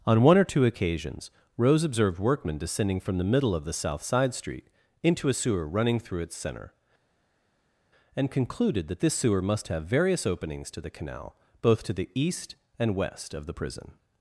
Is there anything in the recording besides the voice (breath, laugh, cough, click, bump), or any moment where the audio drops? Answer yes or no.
no